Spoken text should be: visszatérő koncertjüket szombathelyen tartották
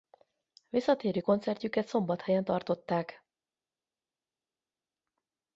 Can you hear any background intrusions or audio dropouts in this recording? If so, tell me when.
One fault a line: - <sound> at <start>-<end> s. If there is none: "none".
none